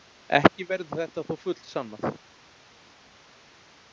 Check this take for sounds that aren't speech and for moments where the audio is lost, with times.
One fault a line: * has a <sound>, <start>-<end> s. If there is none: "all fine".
all fine